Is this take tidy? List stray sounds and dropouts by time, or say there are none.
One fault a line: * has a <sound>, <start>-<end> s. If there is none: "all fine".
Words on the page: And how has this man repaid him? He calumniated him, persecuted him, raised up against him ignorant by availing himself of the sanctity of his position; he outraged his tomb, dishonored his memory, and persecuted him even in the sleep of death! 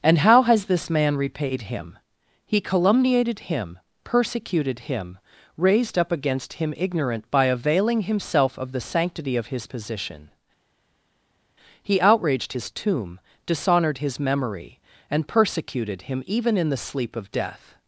all fine